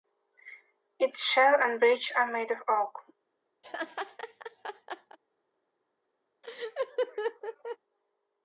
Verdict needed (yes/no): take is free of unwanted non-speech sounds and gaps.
no